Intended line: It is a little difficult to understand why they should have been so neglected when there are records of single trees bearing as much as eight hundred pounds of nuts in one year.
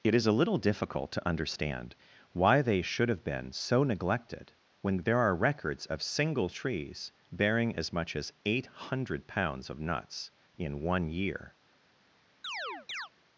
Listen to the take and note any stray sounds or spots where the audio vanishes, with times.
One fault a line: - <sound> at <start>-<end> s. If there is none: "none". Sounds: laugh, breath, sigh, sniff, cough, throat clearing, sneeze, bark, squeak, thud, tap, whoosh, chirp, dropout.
- chirp at 12.4-13.1 s